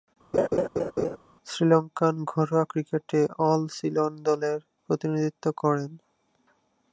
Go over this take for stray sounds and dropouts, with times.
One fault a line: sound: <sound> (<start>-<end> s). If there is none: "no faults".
sound: laugh (0.3-1.2 s)